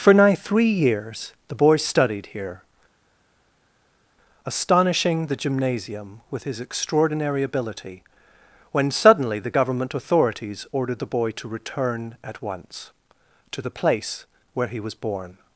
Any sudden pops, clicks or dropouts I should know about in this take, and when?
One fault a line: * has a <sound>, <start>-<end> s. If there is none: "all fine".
all fine